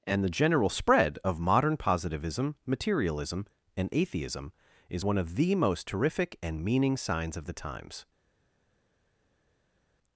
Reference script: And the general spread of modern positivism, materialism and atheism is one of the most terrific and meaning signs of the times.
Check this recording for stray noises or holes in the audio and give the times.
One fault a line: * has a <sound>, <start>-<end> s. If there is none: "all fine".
all fine